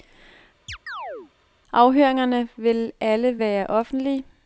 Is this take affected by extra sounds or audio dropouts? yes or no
yes